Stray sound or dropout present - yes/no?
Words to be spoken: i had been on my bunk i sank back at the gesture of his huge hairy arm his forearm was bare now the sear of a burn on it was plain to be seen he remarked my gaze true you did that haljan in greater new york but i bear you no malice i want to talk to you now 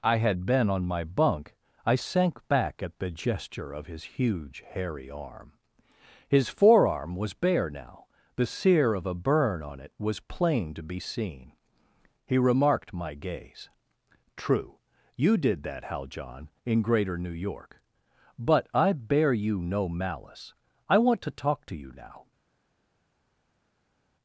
no